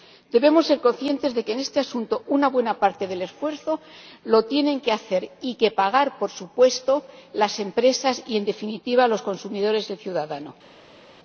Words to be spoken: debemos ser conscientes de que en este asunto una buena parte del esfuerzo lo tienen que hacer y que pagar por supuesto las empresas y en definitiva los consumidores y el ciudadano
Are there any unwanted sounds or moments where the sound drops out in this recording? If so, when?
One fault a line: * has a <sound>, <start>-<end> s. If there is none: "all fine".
all fine